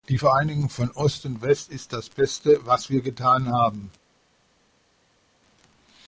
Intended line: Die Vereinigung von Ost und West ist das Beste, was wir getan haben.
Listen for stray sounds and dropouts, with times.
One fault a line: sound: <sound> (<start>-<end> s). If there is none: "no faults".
no faults